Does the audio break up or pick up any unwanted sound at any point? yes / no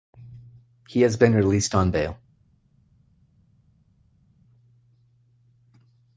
no